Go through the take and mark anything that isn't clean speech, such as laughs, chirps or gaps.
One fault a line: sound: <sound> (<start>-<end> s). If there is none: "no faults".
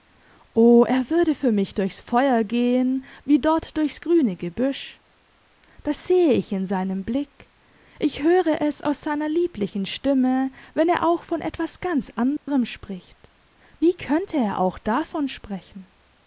sound: dropout (12.4-12.5 s)